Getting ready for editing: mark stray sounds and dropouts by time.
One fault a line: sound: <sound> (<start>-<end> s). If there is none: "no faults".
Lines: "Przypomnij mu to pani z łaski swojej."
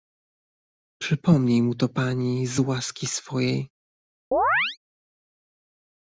sound: chirp (4.3-4.8 s)